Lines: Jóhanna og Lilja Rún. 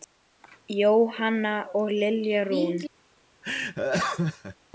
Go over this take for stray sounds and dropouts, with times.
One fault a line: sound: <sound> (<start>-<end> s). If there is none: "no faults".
sound: laugh (3.4-4.6 s)